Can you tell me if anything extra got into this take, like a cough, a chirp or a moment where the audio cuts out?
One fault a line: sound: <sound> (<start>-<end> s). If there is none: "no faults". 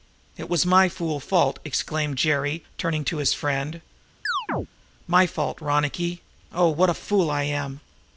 sound: chirp (4.3-4.7 s)